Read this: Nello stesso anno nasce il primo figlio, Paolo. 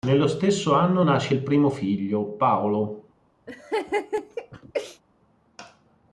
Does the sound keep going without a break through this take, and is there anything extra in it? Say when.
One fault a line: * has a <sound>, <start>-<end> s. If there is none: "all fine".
* has a laugh, 3.5-5.0 s